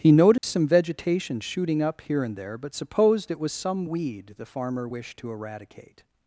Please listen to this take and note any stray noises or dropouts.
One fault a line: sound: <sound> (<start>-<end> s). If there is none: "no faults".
sound: dropout (0.4-0.4 s)